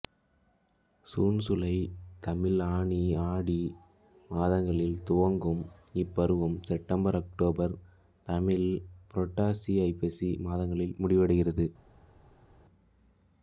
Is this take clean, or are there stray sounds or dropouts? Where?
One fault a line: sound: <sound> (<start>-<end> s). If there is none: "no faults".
no faults